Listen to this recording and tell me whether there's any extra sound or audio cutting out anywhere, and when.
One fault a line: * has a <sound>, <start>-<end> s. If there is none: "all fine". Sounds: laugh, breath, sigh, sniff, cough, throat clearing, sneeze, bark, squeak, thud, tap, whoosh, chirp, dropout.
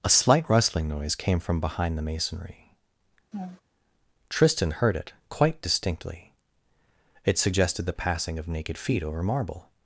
* has a laugh, 3.3-3.6 s